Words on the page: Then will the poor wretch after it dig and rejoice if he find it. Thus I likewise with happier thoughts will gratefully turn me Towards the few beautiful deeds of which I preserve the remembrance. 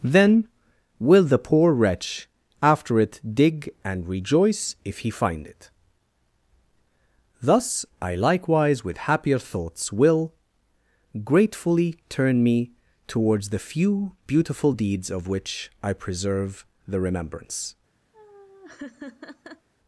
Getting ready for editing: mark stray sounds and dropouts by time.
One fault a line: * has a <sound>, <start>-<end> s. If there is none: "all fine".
* has a laugh, 18.1-19.7 s